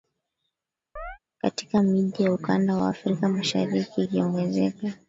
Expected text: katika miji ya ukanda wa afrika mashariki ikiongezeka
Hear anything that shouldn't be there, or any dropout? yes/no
yes